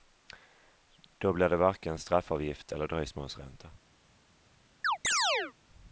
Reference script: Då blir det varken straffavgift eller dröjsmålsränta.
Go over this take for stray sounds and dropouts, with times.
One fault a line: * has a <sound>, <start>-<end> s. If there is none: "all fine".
* has a chirp, 4.8-5.5 s